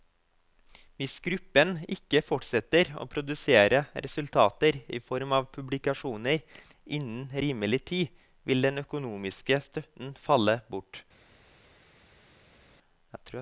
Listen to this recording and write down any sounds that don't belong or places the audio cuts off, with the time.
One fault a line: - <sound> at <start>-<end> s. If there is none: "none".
none